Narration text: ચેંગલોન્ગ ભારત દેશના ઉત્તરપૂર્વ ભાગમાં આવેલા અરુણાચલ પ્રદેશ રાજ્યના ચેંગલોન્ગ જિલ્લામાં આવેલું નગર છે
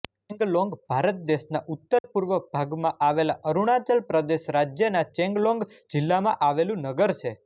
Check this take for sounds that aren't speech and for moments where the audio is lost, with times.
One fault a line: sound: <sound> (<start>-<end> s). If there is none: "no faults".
sound: dropout (2.0-2.0 s)